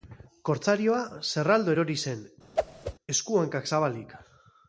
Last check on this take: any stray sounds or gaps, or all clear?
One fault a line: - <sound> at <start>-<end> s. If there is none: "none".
- whoosh at 2.6-2.9 s